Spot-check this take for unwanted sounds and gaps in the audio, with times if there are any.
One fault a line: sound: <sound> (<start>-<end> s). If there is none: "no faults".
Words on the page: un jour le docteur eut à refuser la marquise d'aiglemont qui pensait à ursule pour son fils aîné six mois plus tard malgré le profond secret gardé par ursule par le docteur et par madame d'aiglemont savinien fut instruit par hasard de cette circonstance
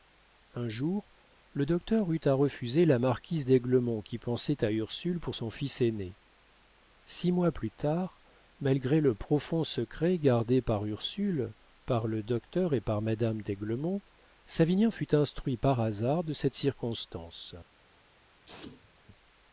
sound: sneeze (18.5-18.9 s)